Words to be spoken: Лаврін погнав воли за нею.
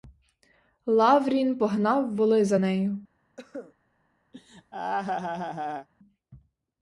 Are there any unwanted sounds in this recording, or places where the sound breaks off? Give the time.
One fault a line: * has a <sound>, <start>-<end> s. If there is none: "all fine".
* has a cough, 3.4-3.7 s
* has a laugh, 4.3-5.9 s